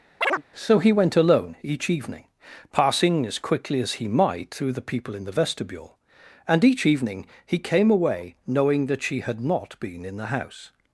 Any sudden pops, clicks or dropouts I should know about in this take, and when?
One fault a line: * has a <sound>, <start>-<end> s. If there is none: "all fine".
* has a chirp, 0.2-0.4 s